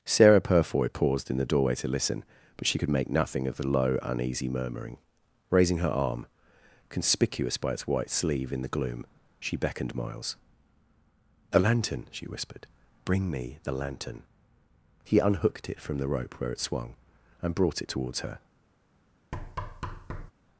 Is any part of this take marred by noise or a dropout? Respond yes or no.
yes